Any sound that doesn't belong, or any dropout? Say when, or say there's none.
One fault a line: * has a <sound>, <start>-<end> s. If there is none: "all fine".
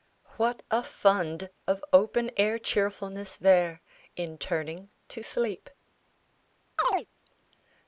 * has a chirp, 6.8-7.1 s